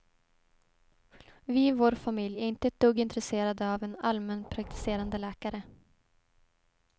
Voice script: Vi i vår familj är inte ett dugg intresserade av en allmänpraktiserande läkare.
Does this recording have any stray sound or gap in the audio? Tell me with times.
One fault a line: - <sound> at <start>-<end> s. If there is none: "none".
none